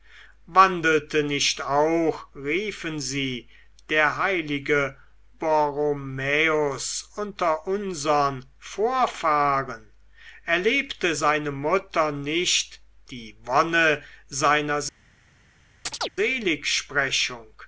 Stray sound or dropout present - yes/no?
yes